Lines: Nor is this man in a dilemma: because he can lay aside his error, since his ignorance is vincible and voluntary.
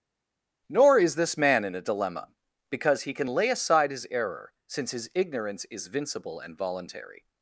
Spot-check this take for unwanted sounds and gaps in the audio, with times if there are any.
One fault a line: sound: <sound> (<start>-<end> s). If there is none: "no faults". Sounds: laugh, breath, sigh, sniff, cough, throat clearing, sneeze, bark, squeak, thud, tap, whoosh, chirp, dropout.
no faults